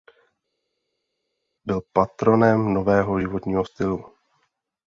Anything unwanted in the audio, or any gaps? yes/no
no